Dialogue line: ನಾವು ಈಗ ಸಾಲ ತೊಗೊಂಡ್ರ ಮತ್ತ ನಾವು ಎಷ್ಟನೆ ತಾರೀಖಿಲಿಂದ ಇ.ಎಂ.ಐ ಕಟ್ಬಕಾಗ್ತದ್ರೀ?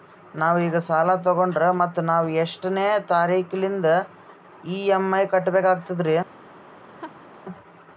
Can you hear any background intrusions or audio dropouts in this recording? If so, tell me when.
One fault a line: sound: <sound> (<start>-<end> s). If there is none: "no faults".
sound: laugh (6.9-7.3 s)